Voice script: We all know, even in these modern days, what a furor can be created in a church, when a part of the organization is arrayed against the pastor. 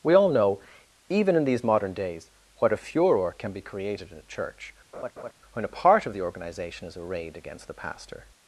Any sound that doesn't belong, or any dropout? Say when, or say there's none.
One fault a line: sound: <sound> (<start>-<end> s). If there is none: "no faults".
sound: laugh (4.9-5.3 s)